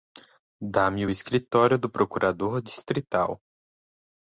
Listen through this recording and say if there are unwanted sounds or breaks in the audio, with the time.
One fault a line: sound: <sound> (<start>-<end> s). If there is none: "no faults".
no faults